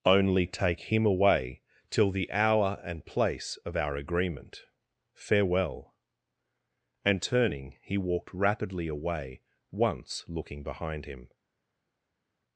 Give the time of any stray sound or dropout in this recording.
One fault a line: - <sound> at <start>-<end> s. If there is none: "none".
none